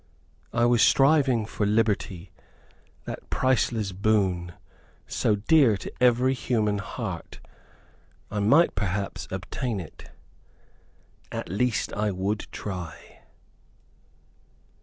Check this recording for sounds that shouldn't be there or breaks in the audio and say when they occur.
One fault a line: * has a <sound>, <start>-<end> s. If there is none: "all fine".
all fine